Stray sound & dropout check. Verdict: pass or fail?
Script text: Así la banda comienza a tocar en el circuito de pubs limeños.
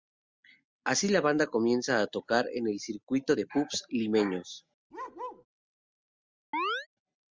fail